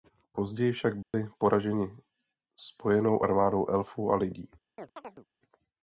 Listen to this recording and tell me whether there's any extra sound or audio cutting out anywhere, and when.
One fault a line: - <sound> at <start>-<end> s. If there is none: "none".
- dropout at 1.0-1.1 s
- chirp at 4.8-5.3 s